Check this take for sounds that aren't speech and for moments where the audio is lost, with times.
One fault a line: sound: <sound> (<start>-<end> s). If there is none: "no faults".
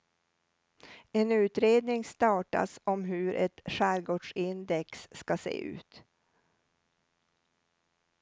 no faults